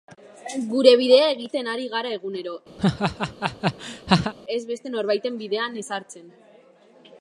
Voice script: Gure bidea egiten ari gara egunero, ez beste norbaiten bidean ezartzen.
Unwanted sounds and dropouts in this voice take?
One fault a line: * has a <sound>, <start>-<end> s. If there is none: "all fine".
* has a laugh, 2.8-4.3 s